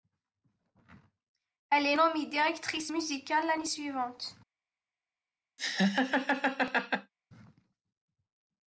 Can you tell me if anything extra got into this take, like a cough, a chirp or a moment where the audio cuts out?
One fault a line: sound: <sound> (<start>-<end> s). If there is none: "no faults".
sound: laugh (5.6-7.1 s)